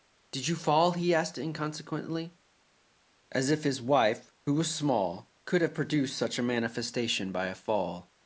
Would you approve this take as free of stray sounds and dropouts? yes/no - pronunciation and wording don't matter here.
yes